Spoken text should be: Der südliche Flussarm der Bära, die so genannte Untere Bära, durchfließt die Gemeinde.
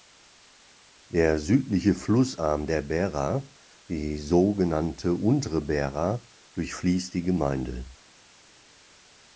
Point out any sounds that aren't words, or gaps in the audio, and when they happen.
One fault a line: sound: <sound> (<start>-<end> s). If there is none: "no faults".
no faults